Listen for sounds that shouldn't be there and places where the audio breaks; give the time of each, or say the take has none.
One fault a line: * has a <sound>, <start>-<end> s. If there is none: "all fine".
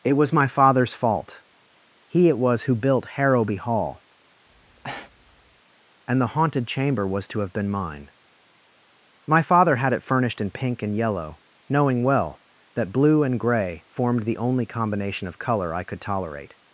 * has a breath, 4.5-5.6 s